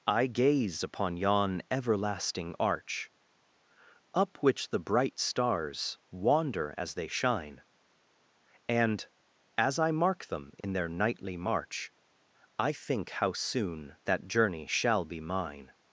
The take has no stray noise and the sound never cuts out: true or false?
false